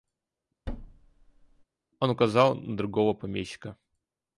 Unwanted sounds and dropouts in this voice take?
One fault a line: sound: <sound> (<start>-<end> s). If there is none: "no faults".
sound: thud (0.7-1.6 s)